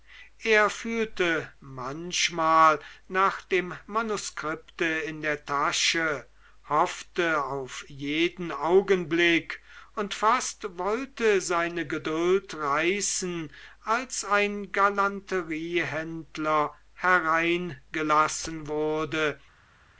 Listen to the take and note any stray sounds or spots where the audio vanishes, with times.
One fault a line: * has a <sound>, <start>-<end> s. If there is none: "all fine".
all fine